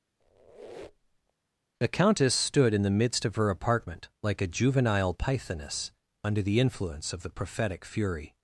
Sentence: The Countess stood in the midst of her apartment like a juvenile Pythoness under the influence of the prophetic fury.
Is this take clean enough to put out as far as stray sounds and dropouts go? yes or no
no